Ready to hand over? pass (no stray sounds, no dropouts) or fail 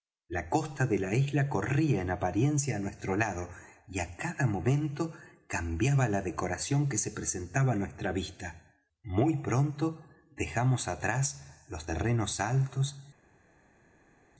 pass